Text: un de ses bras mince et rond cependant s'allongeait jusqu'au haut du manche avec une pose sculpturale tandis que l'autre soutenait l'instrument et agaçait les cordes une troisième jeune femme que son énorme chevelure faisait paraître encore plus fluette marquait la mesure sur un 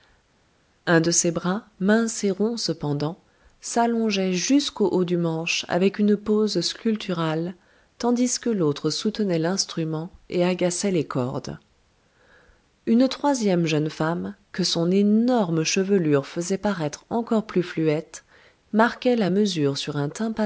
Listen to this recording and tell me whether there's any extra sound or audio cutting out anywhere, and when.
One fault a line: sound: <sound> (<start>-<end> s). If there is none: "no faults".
no faults